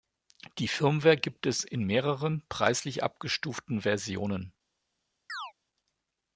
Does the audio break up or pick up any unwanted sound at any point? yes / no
yes